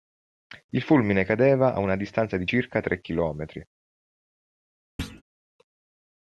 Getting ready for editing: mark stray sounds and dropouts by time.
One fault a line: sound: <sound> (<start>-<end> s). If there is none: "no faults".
sound: thud (5.0-5.2 s)